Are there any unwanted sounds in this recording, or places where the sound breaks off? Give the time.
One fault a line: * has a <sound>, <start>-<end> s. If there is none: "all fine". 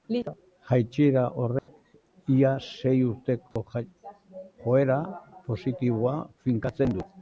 * has a dropout, 1.6-1.7 s
* has a dropout, 3.5-3.6 s